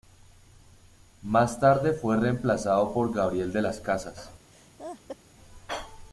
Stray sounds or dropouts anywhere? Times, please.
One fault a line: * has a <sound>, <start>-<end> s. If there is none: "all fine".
* has a laugh, 4.5-5.2 s